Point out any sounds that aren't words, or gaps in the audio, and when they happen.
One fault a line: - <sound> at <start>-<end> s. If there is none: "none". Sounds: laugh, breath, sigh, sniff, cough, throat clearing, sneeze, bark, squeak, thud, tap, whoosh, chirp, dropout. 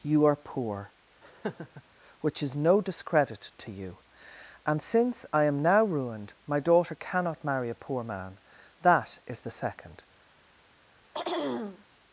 - laugh at 1.2-1.8 s
- throat clearing at 11.1-11.8 s